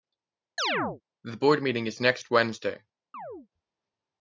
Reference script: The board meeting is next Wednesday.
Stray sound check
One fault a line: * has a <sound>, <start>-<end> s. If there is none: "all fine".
* has a chirp, 0.6-1.0 s
* has a chirp, 3.1-3.5 s